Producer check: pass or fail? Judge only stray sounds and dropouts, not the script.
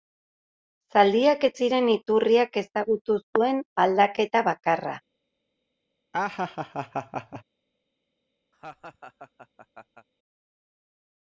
fail